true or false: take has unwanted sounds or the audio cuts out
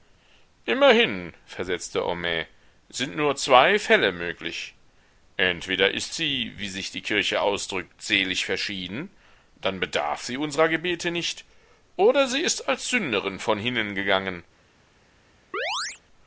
true